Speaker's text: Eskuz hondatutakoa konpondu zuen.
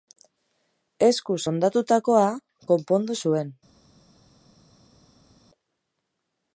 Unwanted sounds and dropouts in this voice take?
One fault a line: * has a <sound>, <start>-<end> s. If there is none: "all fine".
all fine